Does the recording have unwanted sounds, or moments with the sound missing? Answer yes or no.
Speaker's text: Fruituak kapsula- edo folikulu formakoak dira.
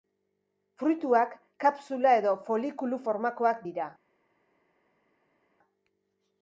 no